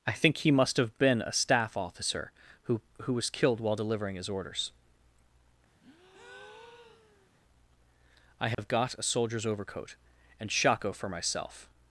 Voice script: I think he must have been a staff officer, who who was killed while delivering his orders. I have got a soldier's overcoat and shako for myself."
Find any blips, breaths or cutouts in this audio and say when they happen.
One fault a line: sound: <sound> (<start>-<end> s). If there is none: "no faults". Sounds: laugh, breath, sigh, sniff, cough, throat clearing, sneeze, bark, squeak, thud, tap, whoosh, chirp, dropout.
sound: breath (5.8-7.3 s)
sound: dropout (8.5-8.6 s)